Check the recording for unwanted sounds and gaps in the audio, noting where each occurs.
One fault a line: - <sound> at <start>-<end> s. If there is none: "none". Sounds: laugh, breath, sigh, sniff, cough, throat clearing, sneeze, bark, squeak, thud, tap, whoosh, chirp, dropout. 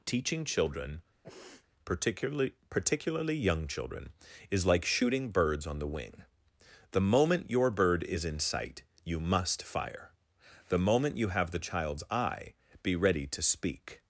- sniff at 1.2-1.7 s